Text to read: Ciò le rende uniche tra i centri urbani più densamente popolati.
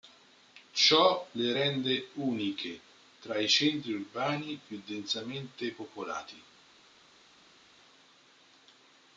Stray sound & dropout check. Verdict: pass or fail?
pass